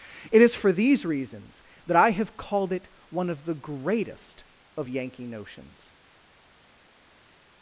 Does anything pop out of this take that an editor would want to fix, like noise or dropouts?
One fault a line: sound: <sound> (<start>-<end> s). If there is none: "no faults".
no faults